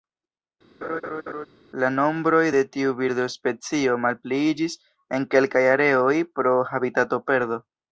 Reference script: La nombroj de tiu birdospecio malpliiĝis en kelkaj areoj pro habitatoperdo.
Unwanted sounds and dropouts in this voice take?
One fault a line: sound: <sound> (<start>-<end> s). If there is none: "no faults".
sound: laugh (0.8-1.5 s)